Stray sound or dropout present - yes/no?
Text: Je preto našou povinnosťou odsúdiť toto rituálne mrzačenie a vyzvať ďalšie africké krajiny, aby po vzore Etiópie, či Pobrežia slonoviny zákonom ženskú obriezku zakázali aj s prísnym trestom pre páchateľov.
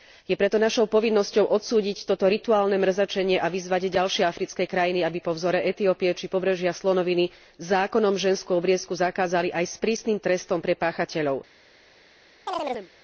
yes